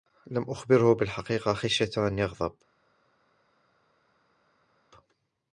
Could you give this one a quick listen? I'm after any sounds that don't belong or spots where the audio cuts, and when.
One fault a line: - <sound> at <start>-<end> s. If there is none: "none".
none